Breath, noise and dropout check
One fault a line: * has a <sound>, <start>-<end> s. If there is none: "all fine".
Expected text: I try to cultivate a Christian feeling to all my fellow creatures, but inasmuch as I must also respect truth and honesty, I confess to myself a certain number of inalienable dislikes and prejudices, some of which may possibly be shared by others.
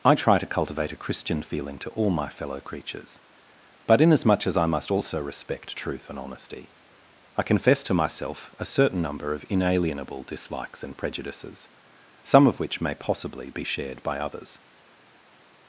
all fine